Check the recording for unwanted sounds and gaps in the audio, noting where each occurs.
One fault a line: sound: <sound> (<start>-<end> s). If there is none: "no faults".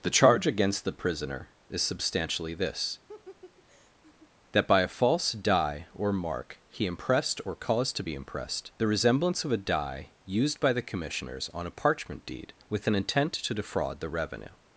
sound: laugh (3.1-4.3 s)